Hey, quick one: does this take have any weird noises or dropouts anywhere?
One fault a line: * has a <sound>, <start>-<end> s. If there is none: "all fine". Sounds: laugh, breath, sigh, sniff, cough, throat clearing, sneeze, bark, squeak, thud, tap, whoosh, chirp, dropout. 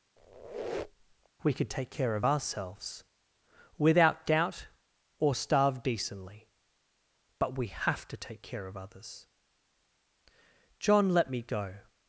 * has a squeak, 0.2-1.3 s